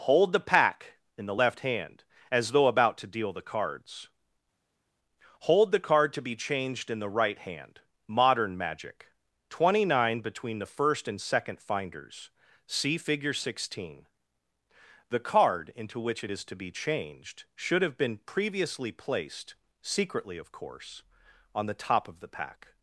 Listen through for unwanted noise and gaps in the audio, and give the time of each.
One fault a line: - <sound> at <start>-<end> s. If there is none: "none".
none